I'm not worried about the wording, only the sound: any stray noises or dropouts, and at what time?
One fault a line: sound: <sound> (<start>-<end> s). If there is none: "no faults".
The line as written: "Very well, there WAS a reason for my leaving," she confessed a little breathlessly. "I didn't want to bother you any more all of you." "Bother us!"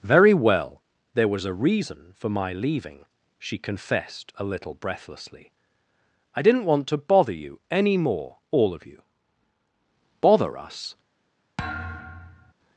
sound: thud (11.6-12.5 s)